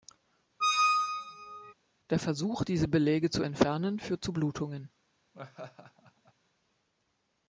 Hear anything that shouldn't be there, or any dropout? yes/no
yes